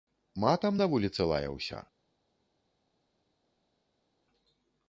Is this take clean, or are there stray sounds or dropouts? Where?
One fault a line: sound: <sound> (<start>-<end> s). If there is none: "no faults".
no faults